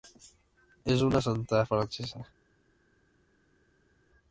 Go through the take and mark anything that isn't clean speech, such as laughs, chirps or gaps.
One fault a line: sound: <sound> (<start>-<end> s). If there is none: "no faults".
no faults